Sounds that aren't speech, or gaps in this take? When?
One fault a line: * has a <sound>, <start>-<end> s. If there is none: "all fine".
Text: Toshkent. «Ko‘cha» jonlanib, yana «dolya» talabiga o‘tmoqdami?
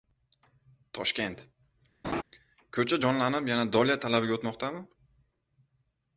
* has a laugh, 2.0-2.2 s